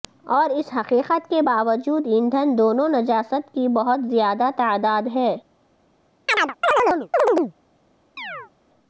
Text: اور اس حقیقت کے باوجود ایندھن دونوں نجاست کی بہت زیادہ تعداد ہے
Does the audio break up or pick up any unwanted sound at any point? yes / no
yes